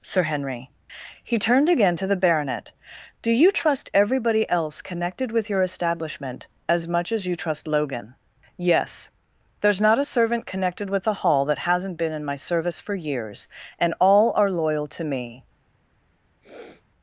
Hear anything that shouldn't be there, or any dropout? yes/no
yes